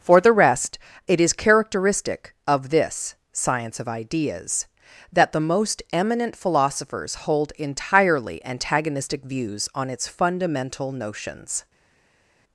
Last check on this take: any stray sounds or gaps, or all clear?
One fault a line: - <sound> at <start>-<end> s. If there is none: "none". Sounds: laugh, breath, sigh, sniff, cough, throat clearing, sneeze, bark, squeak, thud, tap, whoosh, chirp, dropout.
none